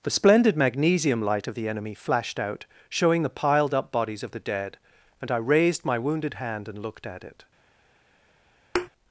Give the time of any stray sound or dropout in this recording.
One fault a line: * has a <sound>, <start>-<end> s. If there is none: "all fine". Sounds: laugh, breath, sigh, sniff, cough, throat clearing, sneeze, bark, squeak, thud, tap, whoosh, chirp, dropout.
* has a thud, 8.7-8.9 s